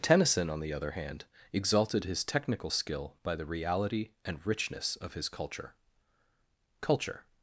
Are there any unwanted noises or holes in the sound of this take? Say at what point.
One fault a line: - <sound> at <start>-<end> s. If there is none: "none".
none